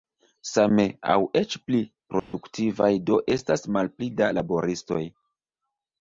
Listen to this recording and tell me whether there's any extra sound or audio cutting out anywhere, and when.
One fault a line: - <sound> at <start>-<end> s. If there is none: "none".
- dropout at 2.2-2.3 s